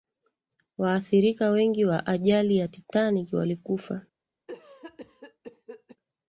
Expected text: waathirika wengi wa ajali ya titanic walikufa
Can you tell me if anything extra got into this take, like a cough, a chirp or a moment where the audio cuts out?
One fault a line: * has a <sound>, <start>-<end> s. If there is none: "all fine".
* has a cough, 4.5-6.0 s